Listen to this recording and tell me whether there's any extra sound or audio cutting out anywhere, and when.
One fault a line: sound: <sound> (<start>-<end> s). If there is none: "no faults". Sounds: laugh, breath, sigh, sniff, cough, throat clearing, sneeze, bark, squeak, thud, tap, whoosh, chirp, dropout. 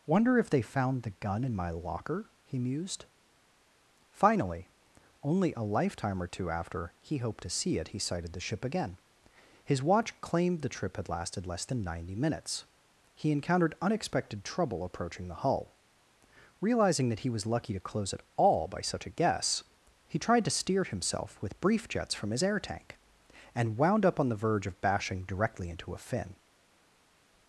no faults